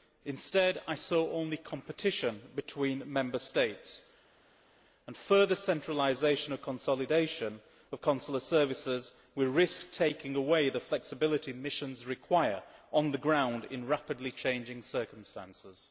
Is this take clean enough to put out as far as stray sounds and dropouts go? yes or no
yes